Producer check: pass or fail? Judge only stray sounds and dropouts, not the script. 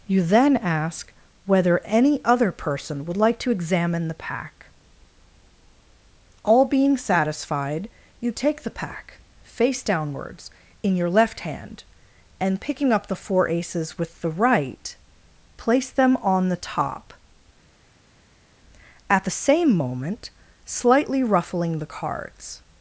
pass